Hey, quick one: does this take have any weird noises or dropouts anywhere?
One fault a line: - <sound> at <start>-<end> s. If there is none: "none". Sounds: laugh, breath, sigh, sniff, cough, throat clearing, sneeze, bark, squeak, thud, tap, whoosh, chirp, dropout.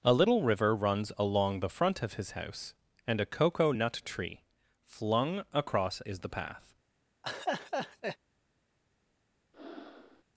- laugh at 7.2-8.2 s
- breath at 9.5-10.2 s